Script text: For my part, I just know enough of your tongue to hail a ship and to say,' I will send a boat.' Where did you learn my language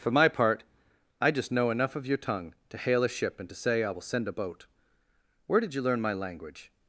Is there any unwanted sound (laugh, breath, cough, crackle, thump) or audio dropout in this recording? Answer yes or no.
no